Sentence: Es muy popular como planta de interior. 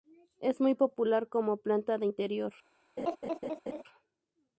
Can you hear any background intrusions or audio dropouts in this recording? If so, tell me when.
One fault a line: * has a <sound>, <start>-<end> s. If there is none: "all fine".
* has a laugh, 3.0-3.8 s